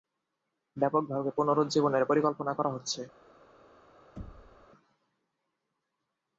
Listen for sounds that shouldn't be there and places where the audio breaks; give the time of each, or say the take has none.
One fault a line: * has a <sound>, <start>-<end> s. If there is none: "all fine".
* has a thud, 4.2-4.7 s